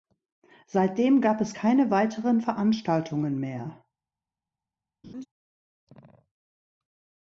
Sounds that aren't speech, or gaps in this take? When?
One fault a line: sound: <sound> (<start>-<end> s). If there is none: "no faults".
sound: laugh (5.0-5.3 s)